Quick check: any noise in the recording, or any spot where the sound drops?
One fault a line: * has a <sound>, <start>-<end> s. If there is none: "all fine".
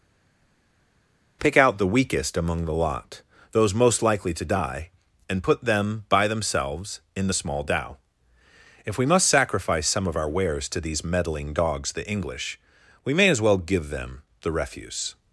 all fine